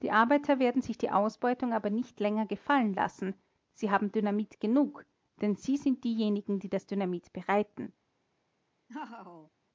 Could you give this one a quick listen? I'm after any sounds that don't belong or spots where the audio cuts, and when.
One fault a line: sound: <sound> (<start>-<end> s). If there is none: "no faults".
sound: laugh (8.9-9.5 s)